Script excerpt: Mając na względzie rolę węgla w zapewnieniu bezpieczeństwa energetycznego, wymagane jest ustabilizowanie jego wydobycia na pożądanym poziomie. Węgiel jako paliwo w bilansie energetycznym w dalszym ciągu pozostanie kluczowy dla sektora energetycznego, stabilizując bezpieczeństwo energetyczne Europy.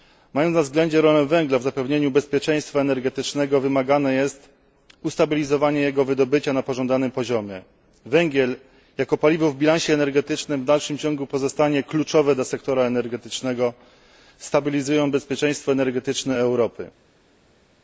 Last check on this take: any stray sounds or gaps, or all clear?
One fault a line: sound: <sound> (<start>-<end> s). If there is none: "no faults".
no faults